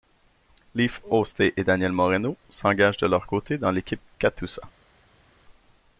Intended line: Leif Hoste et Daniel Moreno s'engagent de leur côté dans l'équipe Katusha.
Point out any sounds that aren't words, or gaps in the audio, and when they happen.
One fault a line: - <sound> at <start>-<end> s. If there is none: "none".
none